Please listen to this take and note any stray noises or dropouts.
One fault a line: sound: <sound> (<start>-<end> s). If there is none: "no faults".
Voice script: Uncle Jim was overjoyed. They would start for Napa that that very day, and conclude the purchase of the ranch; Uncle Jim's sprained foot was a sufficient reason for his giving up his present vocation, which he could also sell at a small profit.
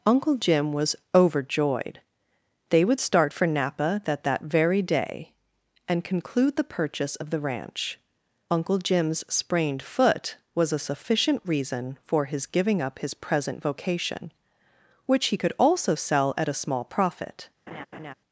sound: laugh (17.7-18.1 s)